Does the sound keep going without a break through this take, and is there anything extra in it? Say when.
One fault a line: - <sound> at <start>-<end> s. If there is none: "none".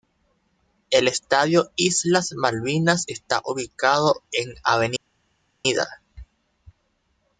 none